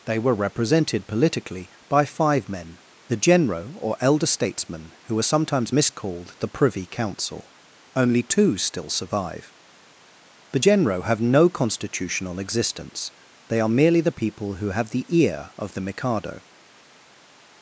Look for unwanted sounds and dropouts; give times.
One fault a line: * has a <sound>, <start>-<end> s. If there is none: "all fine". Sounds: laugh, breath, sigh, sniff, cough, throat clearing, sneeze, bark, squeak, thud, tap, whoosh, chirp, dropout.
all fine